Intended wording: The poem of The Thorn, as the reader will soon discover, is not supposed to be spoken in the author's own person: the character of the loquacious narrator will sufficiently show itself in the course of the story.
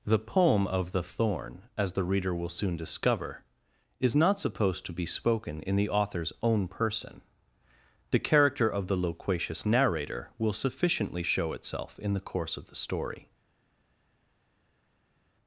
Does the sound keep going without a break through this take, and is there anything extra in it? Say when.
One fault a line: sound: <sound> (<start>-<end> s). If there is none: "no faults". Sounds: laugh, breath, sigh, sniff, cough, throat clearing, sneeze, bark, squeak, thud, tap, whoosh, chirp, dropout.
no faults